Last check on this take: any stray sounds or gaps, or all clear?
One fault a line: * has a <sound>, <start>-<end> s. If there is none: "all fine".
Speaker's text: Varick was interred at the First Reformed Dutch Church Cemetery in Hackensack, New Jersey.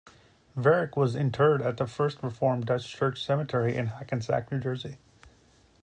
all fine